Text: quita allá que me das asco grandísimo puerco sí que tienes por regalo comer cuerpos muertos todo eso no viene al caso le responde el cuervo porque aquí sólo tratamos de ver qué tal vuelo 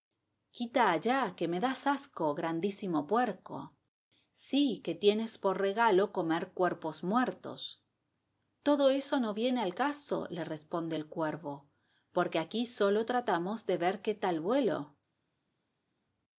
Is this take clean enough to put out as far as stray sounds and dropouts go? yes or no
yes